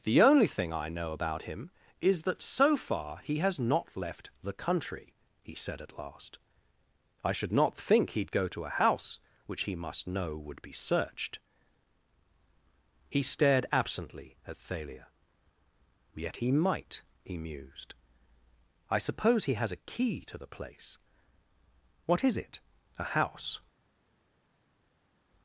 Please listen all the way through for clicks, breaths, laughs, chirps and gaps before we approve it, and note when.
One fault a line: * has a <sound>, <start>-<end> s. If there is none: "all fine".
all fine